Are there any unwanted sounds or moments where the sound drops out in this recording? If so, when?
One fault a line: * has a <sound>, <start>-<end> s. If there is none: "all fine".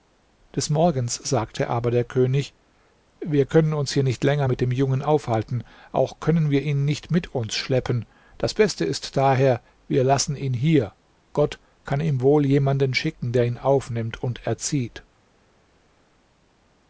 all fine